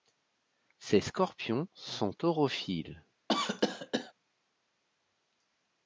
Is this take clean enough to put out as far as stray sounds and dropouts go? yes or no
no